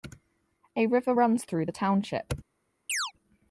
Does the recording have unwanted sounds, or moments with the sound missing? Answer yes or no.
yes